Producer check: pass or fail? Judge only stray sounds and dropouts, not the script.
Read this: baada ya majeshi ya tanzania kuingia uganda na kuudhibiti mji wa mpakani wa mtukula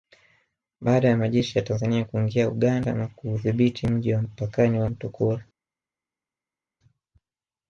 pass